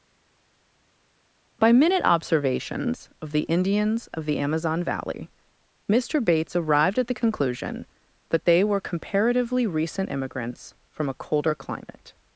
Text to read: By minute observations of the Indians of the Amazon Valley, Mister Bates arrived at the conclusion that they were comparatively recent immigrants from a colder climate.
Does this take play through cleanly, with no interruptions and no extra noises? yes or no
yes